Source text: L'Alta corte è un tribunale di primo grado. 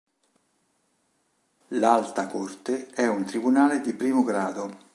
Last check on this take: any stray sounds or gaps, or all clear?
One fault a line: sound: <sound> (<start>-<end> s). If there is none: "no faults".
no faults